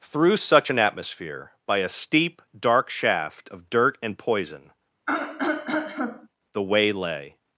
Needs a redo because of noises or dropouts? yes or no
yes